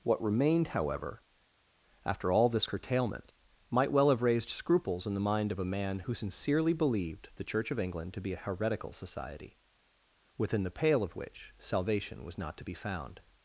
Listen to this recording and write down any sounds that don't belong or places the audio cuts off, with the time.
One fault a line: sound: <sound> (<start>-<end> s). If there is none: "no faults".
no faults